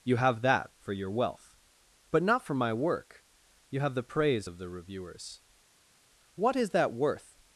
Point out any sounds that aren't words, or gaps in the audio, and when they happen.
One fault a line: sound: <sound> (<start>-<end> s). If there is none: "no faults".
no faults